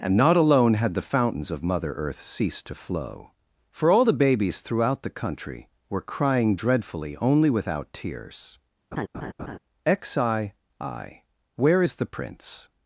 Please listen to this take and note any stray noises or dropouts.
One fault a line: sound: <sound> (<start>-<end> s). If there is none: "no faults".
sound: laugh (8.9-9.6 s)